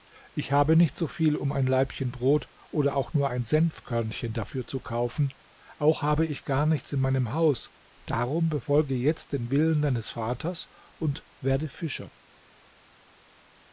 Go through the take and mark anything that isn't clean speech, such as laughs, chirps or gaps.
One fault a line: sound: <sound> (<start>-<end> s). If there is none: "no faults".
no faults